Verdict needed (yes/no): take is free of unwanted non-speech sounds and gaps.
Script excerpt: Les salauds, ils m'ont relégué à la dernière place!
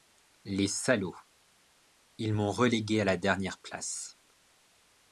yes